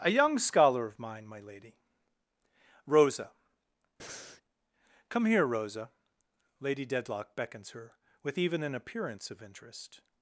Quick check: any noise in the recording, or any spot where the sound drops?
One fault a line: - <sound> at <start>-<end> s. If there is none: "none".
- breath at 4.0-4.4 s